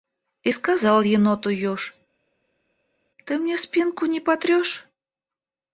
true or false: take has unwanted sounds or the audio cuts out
false